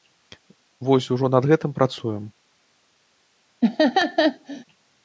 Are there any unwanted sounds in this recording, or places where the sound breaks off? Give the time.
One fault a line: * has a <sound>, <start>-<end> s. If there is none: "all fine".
* has a laugh, 3.6-4.6 s